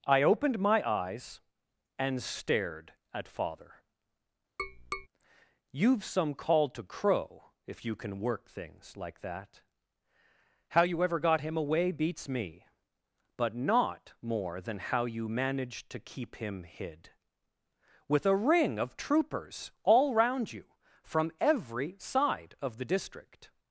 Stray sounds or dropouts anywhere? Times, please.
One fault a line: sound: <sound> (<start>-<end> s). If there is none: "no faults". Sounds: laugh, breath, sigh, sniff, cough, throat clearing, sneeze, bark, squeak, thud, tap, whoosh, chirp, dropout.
sound: tap (4.6-5.1 s)